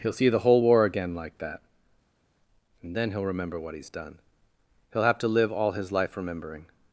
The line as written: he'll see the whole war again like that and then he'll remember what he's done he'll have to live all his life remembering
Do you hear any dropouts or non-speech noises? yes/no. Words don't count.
no